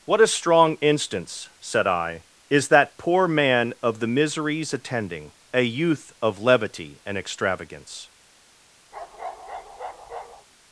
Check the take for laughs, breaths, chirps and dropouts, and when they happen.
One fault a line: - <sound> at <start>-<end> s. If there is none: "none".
- bark at 8.9-10.5 s